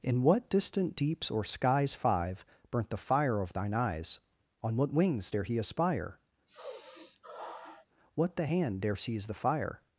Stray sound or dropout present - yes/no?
yes